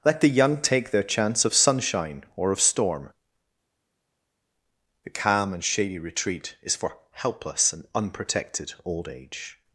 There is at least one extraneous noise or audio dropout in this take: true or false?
false